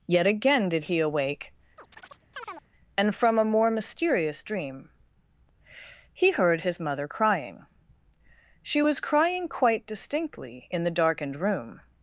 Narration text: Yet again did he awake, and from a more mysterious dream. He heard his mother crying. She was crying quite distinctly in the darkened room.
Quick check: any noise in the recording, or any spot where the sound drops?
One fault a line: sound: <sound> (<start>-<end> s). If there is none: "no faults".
sound: chirp (1.8-2.7 s)